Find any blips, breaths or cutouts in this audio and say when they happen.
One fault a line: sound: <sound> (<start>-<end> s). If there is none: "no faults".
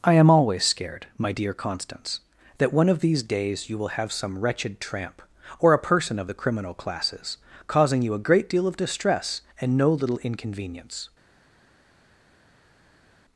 no faults